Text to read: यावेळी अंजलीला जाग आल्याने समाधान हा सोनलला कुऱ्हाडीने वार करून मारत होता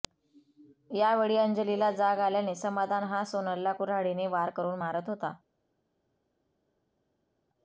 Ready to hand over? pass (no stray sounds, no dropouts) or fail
pass